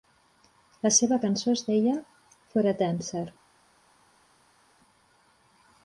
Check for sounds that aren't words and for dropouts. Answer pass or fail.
pass